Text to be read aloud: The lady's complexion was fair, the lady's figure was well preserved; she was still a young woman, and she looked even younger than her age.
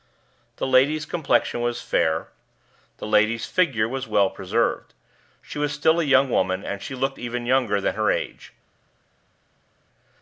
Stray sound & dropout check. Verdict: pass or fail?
pass